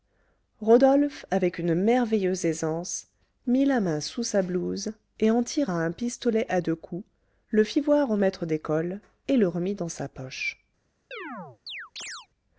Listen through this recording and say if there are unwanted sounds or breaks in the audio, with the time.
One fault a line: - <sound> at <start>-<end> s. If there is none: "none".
- chirp at 11.1-12.3 s